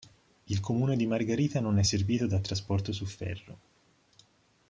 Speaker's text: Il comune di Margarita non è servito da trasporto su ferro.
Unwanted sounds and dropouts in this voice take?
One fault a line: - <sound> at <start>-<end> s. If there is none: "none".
none